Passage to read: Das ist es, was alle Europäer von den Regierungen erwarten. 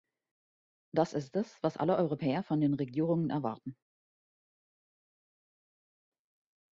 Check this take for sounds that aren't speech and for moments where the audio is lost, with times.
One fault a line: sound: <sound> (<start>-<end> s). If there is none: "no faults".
no faults